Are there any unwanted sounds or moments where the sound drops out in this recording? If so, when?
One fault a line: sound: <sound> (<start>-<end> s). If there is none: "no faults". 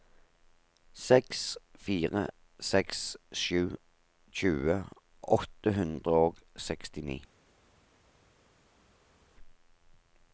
no faults